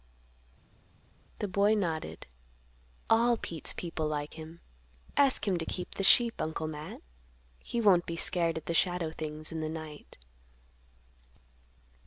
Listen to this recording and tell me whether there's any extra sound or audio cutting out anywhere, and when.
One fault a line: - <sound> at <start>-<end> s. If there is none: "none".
none